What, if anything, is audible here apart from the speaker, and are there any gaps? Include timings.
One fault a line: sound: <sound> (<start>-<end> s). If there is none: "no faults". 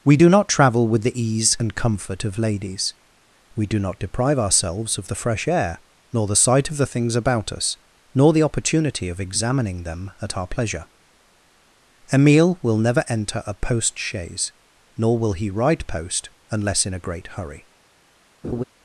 sound: laugh (18.4-18.6 s)